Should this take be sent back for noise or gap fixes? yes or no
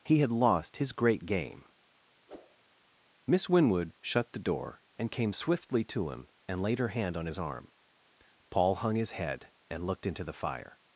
yes